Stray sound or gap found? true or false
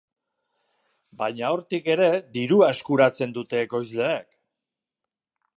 false